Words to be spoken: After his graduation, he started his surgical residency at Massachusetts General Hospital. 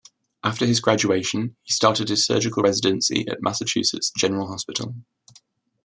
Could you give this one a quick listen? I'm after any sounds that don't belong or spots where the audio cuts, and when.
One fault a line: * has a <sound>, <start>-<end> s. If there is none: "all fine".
all fine